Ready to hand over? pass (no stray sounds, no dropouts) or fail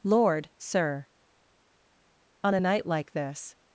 pass